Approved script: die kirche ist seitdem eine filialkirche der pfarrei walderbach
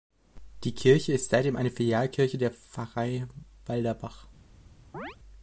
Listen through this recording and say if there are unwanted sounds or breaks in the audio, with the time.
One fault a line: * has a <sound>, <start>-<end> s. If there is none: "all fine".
* has a chirp, 4.9-5.2 s